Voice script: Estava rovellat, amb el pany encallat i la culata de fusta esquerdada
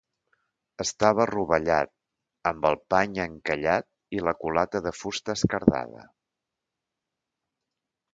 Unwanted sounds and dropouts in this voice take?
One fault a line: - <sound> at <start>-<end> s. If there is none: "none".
none